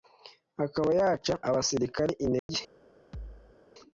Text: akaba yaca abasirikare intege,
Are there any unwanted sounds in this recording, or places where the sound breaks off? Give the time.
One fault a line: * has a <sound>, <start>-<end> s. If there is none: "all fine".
* has a dropout, 2.4-2.5 s
* has a thud, 3.1-3.6 s